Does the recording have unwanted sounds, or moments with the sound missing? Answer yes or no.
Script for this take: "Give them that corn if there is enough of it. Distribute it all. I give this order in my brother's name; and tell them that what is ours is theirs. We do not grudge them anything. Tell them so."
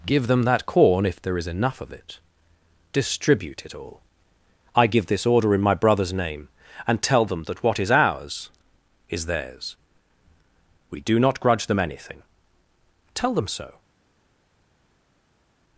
no